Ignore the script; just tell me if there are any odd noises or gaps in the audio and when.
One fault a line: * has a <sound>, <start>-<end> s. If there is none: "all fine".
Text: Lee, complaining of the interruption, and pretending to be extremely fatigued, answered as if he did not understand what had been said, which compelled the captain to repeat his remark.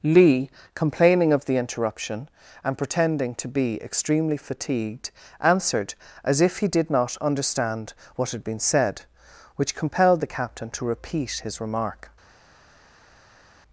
all fine